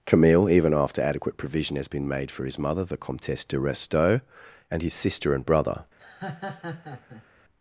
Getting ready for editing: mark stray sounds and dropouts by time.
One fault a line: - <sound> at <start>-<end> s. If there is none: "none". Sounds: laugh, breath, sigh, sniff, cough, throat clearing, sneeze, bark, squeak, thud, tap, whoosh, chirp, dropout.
- laugh at 6.0-7.3 s